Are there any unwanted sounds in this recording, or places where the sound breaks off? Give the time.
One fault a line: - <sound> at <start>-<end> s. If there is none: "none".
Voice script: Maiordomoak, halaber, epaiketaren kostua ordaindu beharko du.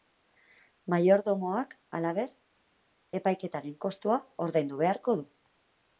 none